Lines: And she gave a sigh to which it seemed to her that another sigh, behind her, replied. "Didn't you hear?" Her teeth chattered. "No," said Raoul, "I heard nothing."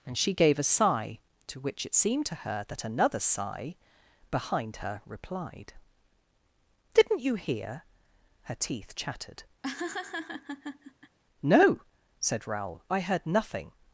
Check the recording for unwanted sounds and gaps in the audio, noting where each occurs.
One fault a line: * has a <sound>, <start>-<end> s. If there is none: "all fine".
* has a laugh, 9.6-11.2 s